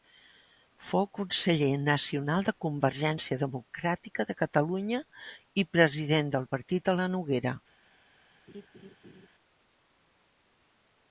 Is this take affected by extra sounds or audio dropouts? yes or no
yes